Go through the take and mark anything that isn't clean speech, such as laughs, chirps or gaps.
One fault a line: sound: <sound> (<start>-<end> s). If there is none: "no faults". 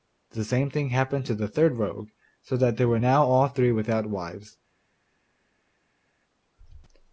no faults